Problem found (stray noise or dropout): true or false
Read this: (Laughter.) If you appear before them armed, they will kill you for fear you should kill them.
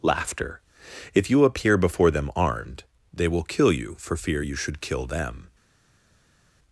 false